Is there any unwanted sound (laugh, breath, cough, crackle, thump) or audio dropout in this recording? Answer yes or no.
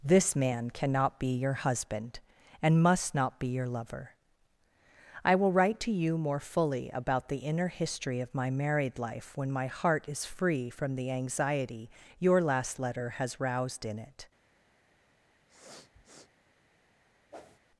yes